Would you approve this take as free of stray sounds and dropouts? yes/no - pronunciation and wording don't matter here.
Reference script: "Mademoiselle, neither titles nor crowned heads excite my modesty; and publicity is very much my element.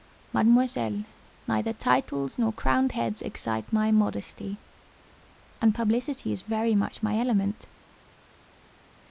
yes